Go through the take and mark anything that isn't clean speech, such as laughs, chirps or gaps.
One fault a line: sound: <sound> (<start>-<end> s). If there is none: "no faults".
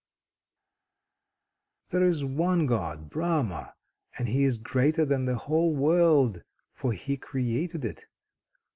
no faults